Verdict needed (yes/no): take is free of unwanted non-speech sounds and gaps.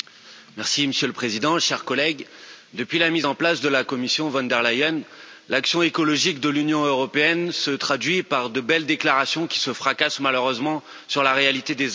yes